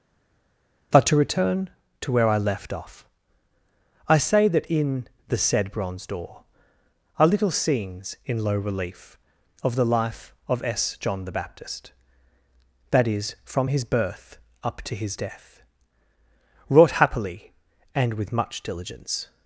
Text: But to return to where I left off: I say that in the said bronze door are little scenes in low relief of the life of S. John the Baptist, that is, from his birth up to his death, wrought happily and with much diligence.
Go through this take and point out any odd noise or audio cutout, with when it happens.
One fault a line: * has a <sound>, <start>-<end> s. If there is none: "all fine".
all fine